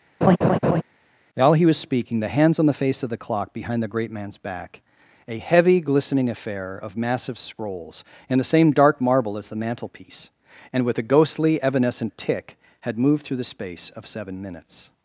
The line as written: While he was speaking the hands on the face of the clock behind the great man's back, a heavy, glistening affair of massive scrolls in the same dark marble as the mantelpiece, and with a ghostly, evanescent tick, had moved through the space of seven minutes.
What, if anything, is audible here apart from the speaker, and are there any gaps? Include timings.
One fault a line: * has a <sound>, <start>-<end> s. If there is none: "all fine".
* has a laugh, 0.2-0.8 s